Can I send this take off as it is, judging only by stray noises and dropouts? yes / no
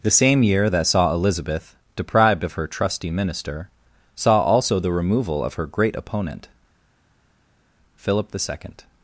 yes